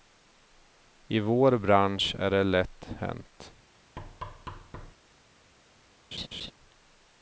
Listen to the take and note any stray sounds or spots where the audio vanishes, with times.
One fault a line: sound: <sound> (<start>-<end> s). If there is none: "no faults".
sound: thud (4.0-4.9 s)
sound: laugh (6.1-6.5 s)